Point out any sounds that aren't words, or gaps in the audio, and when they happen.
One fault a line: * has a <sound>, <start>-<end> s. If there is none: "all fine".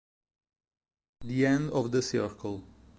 all fine